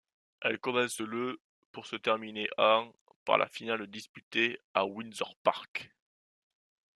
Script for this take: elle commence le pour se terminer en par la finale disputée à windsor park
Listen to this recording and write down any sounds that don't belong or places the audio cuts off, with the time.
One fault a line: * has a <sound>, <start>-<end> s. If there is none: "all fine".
all fine